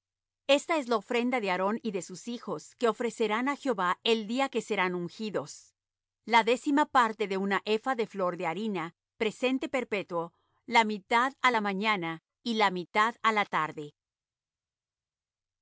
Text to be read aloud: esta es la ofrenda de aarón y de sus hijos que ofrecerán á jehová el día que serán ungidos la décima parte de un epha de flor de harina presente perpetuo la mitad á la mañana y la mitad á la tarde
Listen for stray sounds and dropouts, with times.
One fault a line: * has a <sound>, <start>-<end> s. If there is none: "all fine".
all fine